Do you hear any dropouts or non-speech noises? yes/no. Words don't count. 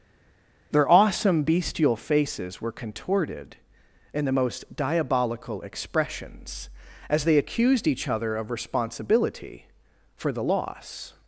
no